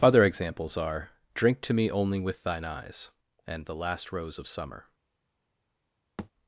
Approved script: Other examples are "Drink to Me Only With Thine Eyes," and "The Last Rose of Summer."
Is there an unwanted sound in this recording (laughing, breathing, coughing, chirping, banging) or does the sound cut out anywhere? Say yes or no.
yes